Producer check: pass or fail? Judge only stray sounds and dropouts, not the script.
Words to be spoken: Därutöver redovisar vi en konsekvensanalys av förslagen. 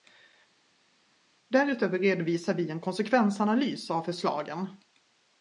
pass